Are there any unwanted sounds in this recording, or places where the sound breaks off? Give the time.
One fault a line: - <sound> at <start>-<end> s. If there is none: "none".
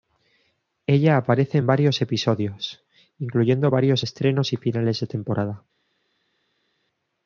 none